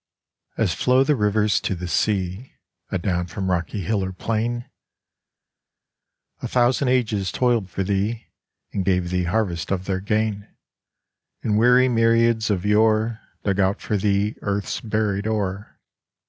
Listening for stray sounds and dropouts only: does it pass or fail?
pass